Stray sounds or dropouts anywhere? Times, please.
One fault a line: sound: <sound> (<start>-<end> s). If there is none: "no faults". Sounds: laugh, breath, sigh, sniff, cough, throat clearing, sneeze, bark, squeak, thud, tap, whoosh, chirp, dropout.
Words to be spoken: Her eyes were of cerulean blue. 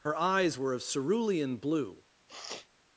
sound: sniff (2.3-2.7 s)